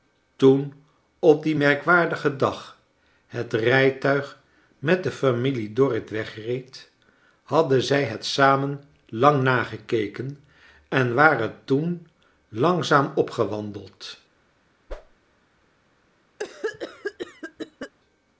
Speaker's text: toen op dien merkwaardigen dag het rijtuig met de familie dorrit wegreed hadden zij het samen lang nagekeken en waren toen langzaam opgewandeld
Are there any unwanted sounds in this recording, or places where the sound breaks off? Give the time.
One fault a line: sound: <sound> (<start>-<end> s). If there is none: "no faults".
sound: whoosh (14.9-15.2 s)
sound: cough (16.4-17.9 s)